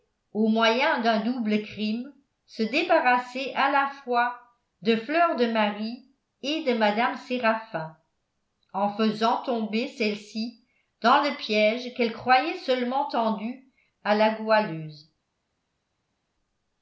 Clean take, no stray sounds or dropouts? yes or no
yes